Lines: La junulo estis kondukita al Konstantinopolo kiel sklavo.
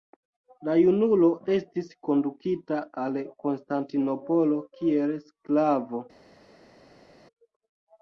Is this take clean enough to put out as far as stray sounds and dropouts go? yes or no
yes